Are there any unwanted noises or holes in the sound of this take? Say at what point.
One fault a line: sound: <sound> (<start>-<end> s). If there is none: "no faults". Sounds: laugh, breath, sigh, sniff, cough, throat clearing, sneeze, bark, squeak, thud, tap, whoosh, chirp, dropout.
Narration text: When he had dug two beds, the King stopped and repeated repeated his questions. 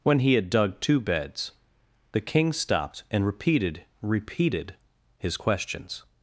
no faults